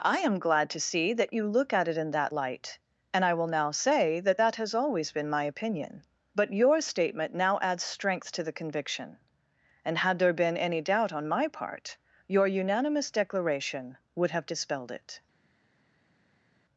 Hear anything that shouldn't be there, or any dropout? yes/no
no